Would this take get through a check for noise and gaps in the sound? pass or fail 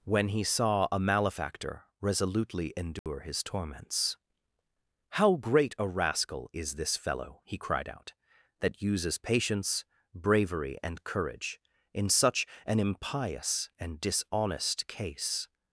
fail